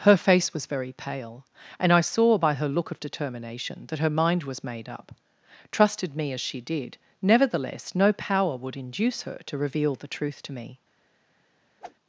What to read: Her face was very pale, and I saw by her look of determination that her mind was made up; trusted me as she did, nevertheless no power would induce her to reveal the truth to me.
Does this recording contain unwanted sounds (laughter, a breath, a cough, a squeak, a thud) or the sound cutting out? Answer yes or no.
yes